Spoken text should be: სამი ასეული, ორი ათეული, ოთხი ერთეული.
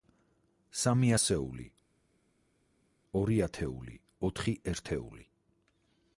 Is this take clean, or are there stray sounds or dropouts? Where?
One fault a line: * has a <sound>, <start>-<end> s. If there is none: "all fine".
all fine